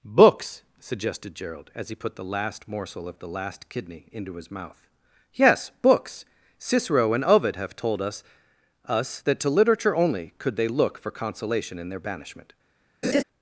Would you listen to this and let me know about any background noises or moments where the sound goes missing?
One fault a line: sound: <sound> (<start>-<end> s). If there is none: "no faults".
sound: laugh (13.0-13.2 s)